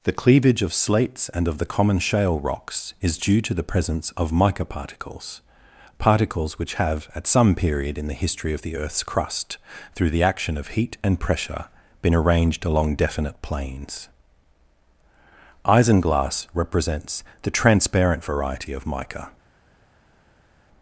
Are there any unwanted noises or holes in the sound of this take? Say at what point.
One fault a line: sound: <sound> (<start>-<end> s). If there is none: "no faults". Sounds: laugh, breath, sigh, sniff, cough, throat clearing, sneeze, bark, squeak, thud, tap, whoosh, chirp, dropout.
no faults